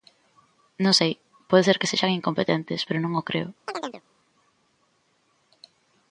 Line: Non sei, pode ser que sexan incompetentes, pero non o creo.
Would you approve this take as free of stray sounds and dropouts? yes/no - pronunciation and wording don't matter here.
no